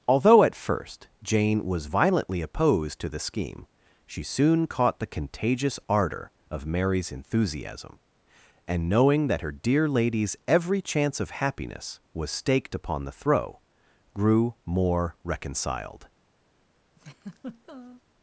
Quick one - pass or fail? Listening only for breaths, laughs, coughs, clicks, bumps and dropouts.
fail